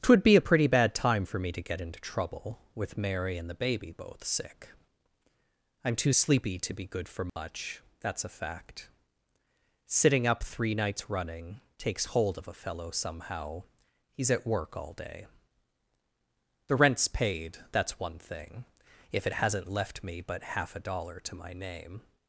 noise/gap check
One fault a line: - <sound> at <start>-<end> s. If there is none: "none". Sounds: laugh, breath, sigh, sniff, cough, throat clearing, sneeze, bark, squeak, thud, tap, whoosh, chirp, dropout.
- dropout at 7.3-7.4 s